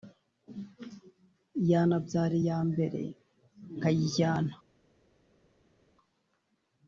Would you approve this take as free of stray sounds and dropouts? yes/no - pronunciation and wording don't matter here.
yes